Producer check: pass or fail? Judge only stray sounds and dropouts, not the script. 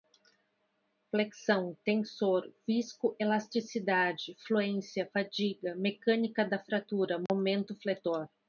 fail